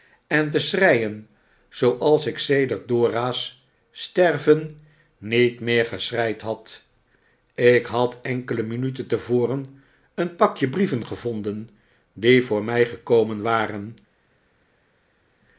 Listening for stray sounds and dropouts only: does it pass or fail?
pass